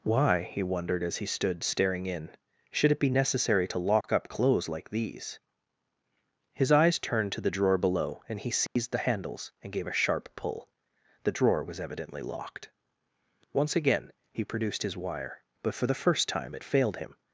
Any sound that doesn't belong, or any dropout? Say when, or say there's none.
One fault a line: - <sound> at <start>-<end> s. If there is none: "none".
- dropout at 4.0-4.0 s
- dropout at 8.7-8.8 s